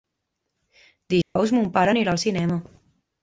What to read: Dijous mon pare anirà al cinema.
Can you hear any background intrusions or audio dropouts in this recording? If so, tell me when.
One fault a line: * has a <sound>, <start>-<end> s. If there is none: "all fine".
* has a dropout, 1.2-1.4 s